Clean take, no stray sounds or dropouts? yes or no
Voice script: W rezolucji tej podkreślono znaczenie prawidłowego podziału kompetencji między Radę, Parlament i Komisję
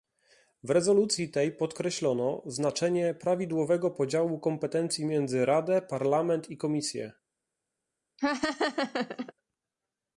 no